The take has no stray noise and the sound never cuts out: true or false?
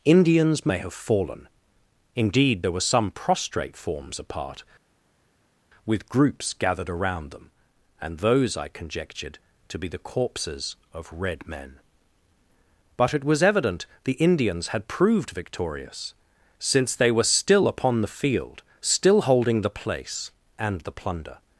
true